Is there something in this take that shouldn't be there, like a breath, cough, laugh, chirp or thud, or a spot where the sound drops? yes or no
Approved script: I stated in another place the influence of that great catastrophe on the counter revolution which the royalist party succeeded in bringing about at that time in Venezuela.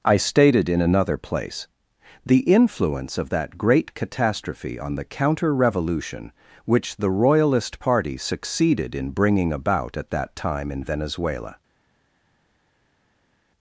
no